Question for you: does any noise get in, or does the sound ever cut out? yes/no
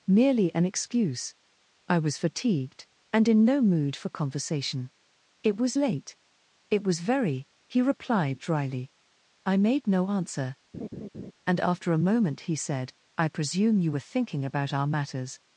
yes